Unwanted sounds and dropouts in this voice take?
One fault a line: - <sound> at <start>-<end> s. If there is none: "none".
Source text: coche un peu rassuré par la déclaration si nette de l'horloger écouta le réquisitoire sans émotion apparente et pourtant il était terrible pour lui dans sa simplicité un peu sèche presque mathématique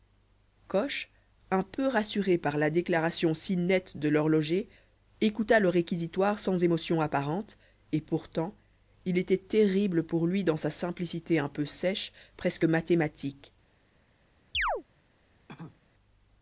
- chirp at 14.5-14.8 s
- cough at 15.5-15.9 s